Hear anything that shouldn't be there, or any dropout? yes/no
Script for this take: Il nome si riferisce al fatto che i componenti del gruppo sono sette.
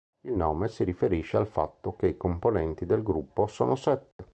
yes